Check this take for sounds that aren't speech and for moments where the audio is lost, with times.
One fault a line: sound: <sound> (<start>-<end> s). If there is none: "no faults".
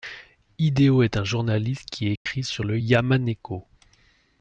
sound: dropout (2.2-2.3 s)